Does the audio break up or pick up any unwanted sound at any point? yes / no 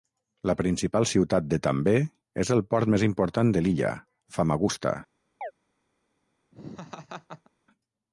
yes